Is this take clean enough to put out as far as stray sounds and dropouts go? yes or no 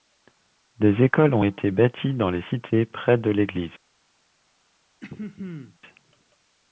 no